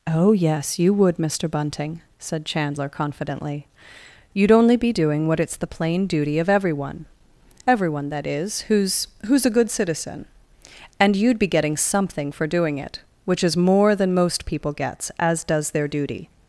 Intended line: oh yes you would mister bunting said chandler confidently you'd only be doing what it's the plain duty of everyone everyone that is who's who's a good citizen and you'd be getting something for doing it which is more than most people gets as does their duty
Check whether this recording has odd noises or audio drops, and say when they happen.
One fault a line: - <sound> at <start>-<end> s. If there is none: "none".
none